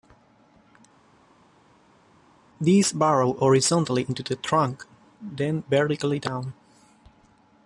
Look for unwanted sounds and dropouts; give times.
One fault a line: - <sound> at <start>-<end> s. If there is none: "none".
none